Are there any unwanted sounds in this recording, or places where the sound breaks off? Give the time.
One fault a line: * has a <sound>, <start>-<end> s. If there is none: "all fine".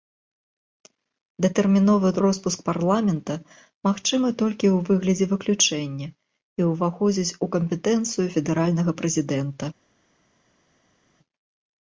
all fine